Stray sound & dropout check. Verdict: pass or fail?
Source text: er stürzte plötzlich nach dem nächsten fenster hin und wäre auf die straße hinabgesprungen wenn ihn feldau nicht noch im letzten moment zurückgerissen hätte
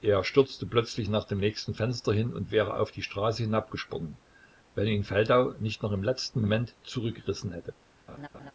fail